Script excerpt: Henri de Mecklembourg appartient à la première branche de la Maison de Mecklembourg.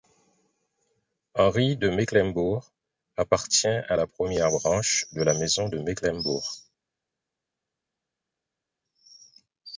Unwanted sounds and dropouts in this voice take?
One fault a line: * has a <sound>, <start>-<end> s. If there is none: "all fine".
all fine